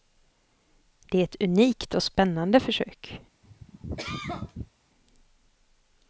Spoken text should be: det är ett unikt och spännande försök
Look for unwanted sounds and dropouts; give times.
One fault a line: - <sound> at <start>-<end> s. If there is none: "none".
- cough at 3.4-4.7 s